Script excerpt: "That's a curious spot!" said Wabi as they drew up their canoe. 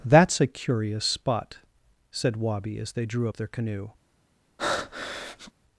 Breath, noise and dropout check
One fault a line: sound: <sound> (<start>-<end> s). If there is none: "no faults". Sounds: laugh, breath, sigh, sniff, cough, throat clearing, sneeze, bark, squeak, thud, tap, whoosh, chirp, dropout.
sound: breath (4.6-5.5 s)